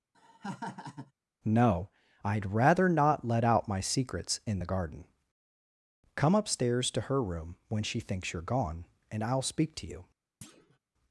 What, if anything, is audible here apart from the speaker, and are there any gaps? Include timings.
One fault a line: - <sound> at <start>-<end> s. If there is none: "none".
- laugh at 0.1-1.1 s
- thud at 10.4-10.8 s